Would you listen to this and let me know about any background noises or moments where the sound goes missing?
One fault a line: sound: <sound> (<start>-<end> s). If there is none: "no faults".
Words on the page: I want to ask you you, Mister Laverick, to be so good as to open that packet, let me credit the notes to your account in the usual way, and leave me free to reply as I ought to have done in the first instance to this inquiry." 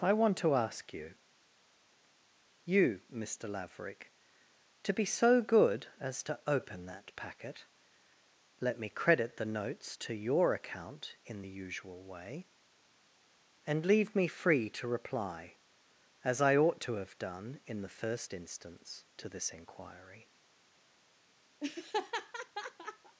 sound: laugh (21.6-23.2 s)